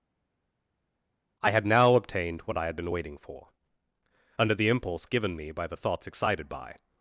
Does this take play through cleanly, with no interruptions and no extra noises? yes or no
yes